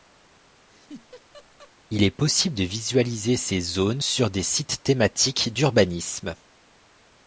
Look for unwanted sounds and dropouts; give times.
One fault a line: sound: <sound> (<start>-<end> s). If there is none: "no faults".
sound: laugh (0.7-1.7 s)